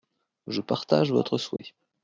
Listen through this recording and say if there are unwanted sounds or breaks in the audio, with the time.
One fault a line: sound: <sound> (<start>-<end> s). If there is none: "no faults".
sound: dropout (1.6-1.6 s)